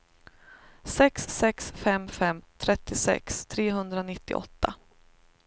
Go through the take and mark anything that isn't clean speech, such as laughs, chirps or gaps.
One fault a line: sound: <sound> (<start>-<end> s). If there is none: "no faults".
no faults